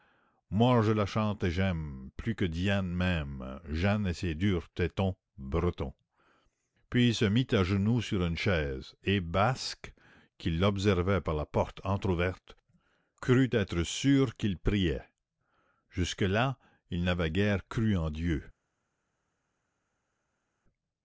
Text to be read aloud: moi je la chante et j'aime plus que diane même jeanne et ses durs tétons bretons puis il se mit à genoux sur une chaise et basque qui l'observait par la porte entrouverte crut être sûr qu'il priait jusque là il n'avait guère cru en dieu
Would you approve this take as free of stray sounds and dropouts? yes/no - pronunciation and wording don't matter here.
yes